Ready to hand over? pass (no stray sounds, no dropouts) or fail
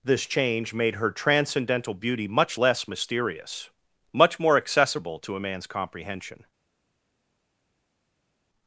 pass